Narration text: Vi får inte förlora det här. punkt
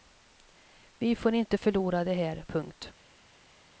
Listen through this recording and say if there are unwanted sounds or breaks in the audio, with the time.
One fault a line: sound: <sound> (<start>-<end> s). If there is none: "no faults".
no faults